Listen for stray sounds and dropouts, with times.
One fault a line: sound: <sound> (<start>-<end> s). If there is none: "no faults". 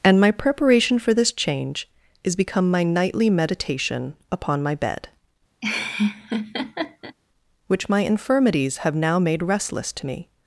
sound: laugh (5.6-7.2 s)